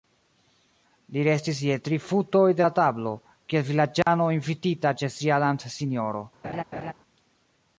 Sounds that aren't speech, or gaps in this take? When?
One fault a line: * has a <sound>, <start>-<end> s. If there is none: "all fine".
* has a dropout, 4.0-4.1 s
* has a laugh, 6.4-6.9 s